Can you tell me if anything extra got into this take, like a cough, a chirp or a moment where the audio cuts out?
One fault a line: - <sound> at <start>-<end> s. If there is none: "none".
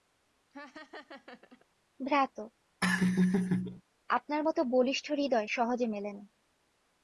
- laugh at 0.5-1.7 s
- laugh at 2.8-3.8 s